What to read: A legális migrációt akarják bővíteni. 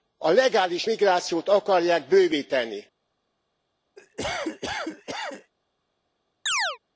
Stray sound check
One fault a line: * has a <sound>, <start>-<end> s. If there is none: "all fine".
* has a cough, 4.0-5.5 s
* has a chirp, 6.5-6.8 s